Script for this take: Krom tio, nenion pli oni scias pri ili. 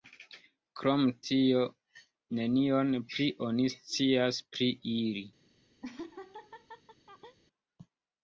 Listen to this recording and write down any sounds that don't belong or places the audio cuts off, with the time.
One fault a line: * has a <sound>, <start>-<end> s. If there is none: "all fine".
* has a laugh, 5.8-7.4 s